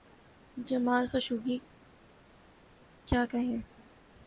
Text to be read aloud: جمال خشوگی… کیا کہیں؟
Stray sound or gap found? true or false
false